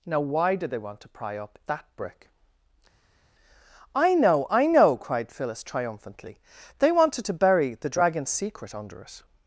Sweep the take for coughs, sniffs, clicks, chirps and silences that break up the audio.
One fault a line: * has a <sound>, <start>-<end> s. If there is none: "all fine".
all fine